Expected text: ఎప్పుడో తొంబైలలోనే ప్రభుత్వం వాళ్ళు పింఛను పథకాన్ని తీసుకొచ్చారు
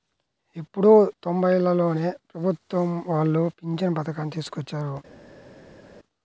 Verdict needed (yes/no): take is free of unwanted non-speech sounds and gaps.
yes